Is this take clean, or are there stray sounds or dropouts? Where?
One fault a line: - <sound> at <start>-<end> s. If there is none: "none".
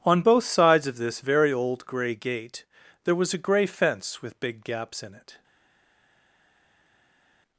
none